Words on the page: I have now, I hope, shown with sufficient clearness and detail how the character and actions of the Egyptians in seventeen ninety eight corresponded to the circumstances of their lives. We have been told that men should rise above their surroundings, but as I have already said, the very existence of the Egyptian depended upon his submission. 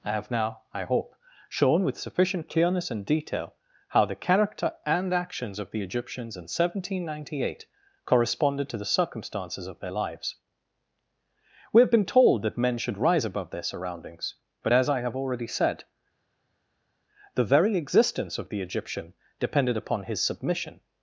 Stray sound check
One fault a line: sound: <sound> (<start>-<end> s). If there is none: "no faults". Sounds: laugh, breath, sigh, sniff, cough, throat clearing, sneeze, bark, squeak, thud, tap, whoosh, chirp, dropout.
no faults